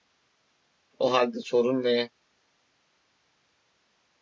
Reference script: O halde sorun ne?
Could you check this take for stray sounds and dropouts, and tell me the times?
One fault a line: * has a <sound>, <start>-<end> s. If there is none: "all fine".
all fine